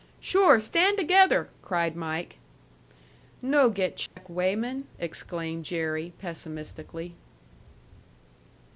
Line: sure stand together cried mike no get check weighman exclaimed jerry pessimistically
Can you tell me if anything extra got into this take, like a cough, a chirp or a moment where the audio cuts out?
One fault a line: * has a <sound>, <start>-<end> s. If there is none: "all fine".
* has a dropout, 4.1-4.2 s